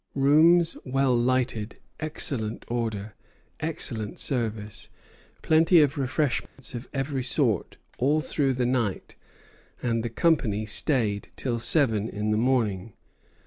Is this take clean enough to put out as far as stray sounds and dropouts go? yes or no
no